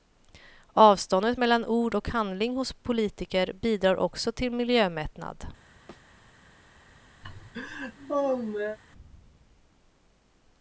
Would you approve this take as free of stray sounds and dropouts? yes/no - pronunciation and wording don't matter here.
no